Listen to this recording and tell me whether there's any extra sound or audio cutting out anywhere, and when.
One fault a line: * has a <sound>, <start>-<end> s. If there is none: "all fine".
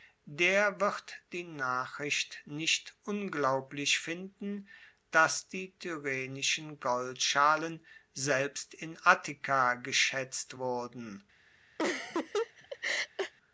* has a laugh, 11.8-13.3 s